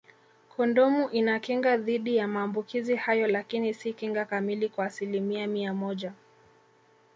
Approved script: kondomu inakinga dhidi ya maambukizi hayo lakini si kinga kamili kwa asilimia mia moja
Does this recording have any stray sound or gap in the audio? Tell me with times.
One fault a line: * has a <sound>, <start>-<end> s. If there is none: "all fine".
all fine